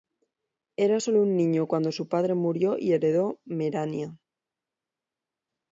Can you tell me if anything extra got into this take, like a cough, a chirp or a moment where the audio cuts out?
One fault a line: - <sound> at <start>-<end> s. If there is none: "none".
none